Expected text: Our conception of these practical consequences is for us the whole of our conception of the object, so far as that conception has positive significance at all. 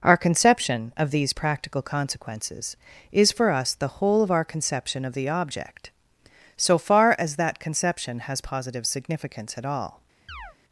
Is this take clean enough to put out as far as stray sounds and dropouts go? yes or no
no